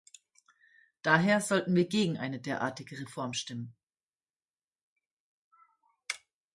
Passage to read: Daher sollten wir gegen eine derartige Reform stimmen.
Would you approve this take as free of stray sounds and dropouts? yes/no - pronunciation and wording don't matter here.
yes